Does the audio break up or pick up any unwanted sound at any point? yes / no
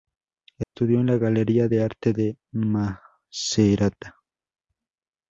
yes